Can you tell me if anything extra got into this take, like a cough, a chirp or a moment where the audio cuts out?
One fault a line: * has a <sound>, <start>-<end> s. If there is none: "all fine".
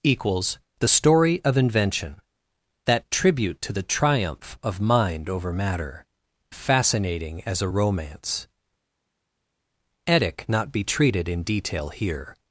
all fine